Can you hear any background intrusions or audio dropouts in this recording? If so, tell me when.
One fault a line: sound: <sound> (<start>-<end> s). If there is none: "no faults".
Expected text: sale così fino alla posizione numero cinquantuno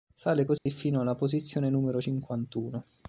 sound: dropout (0.6-0.7 s)